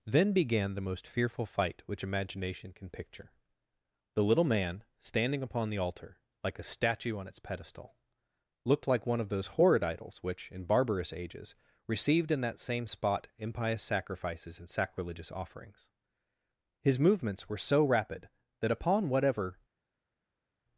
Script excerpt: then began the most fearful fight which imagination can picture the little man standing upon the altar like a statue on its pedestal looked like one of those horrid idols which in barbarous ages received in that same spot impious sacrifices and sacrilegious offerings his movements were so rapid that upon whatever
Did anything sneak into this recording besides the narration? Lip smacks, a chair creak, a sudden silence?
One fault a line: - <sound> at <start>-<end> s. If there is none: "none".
none